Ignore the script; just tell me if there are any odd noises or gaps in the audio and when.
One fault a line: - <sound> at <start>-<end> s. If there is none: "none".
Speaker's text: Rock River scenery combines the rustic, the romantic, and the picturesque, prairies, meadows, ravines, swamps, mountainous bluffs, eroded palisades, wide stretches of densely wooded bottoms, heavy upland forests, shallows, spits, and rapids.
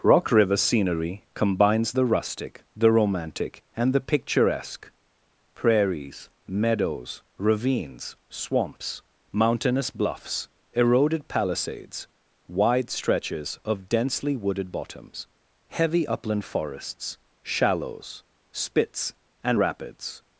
none